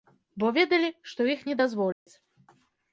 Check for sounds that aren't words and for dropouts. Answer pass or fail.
fail